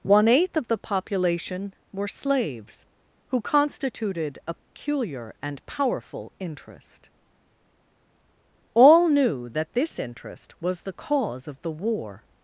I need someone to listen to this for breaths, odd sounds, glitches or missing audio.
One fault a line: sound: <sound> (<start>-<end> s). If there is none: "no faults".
sound: dropout (4.6-4.7 s)